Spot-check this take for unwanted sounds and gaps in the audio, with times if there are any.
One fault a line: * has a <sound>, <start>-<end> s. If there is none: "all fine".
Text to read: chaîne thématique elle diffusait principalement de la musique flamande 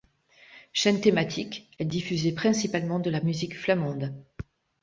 all fine